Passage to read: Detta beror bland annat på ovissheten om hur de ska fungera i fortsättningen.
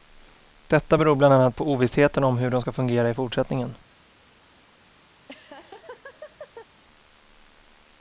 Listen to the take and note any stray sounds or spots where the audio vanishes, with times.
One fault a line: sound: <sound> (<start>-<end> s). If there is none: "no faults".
sound: laugh (5.1-6.7 s)